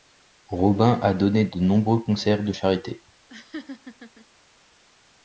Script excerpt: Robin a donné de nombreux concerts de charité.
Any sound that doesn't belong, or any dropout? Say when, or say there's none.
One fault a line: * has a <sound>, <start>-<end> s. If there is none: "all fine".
* has a laugh, 3.3-4.3 s